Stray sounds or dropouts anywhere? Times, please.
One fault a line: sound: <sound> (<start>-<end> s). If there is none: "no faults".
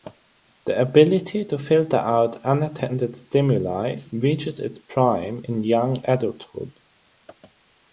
no faults